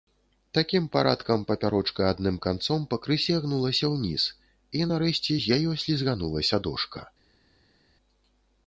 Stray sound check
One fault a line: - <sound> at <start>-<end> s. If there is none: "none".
none